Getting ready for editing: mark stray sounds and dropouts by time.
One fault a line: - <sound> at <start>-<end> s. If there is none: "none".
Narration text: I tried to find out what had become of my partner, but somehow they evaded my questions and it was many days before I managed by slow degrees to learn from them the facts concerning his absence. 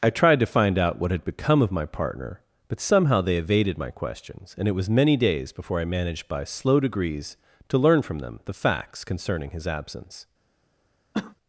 - cough at 11.1-11.4 s